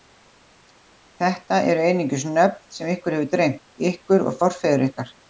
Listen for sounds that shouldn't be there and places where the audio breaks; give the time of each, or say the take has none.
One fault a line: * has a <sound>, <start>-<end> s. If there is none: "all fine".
all fine